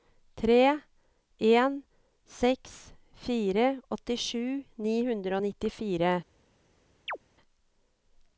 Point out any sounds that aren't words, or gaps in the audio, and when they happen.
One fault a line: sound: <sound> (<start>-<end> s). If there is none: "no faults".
sound: chirp (7.1-7.2 s)